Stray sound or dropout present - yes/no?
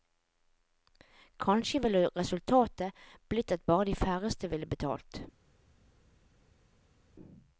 no